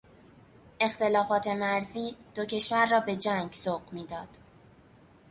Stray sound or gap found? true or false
false